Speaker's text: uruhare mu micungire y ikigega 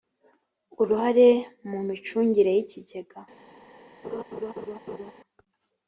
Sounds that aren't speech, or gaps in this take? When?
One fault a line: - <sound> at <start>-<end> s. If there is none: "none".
- laugh at 4.0-5.1 s